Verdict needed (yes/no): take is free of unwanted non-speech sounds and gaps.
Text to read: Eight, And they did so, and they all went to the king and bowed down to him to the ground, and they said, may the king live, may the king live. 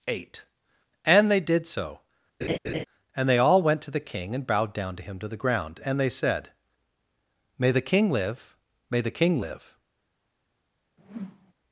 no